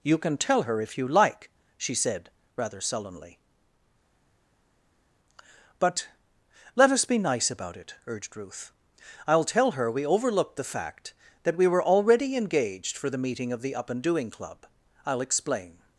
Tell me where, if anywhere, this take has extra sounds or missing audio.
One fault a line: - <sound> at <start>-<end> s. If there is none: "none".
none